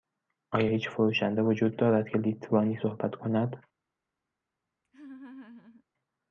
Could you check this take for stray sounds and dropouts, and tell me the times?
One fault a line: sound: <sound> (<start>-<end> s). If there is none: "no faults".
sound: laugh (4.8-5.8 s)